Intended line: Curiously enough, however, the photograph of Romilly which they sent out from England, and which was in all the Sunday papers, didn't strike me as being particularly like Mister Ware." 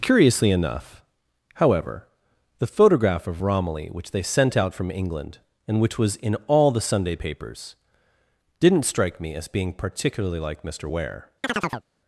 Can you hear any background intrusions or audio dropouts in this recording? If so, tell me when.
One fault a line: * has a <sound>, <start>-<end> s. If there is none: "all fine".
* has a chirp, 11.4-11.9 s